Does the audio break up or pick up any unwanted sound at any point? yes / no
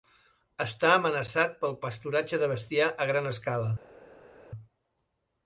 no